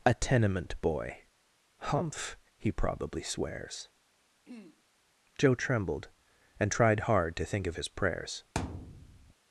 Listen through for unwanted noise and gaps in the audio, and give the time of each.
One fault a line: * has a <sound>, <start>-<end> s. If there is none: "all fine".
* has a throat clearing, 4.5-4.8 s
* has a thud, 8.5-9.3 s